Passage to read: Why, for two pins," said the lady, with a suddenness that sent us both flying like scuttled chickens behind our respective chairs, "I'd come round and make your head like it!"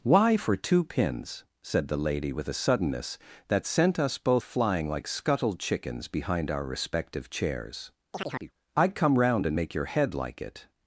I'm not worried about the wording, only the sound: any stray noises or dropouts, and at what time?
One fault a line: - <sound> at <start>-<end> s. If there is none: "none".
- chirp at 8.1-8.5 s